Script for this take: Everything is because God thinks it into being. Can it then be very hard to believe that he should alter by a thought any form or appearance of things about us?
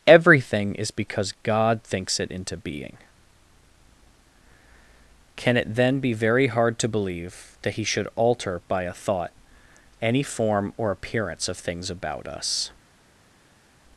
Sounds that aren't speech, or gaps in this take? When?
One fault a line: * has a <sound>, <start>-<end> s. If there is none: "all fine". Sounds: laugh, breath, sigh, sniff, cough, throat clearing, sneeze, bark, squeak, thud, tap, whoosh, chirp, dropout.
all fine